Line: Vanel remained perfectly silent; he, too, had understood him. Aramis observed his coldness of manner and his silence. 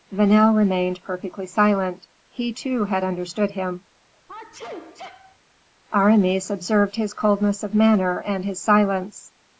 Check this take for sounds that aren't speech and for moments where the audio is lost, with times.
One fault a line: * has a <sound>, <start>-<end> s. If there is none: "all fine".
* has a sneeze, 4.3-5.4 s